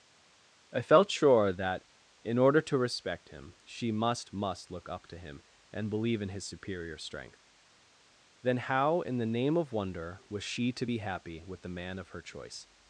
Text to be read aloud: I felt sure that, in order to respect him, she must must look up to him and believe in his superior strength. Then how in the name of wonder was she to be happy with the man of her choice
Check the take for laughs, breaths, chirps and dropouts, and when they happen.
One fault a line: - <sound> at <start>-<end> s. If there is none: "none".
none